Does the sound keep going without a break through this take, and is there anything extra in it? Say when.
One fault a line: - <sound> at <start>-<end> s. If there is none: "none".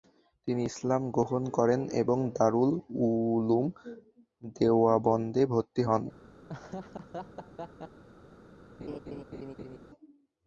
- laugh at 6.5-8.0 s
- laugh at 8.8-9.8 s